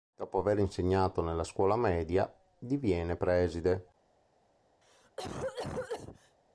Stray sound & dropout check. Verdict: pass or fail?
fail